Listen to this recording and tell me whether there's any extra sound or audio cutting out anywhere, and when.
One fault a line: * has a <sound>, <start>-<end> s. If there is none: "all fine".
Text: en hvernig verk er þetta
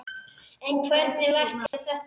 * has a dropout, 1.7-1.7 s